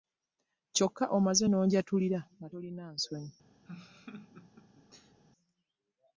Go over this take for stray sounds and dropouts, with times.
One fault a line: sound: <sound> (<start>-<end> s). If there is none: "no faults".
sound: laugh (3.7-5.2 s)